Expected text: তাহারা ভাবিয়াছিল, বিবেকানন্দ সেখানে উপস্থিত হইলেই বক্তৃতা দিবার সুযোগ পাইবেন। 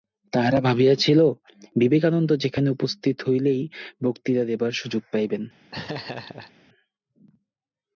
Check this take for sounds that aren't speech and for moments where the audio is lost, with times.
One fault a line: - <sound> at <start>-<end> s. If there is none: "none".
- laugh at 5.7-6.5 s